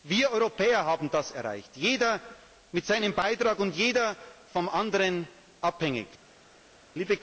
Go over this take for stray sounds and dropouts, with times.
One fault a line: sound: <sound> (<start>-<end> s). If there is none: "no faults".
no faults